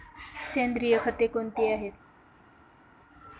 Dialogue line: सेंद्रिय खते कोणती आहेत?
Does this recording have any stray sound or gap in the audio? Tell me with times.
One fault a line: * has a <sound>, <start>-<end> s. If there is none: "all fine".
all fine